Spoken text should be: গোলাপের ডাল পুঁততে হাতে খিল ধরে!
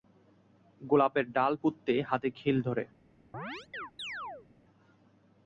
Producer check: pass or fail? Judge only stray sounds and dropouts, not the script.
fail